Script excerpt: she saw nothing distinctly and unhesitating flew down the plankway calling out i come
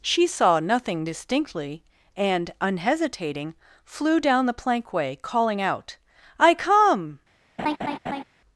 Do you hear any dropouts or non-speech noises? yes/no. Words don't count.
yes